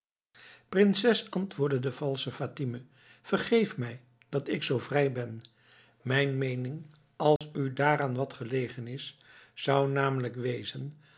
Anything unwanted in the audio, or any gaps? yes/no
yes